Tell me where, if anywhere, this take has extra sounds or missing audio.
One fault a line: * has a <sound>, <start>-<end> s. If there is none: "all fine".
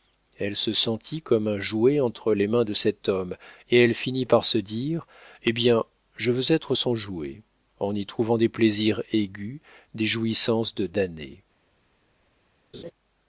* has a laugh, 12.7-12.9 s